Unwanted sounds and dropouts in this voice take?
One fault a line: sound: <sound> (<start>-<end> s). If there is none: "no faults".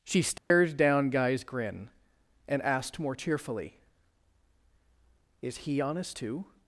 sound: dropout (0.4-0.5 s)